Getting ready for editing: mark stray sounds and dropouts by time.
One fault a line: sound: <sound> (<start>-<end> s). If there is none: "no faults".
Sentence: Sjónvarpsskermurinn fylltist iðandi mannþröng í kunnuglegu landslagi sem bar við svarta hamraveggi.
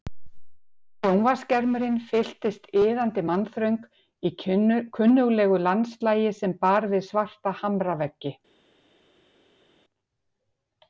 no faults